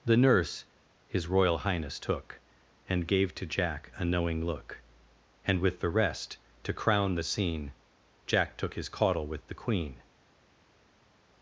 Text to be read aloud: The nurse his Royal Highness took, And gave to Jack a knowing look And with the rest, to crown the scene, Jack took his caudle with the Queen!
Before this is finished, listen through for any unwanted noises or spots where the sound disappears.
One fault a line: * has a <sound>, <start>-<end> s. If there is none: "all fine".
all fine